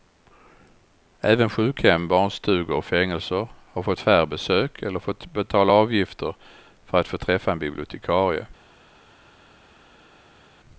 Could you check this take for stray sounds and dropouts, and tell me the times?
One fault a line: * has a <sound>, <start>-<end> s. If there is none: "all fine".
all fine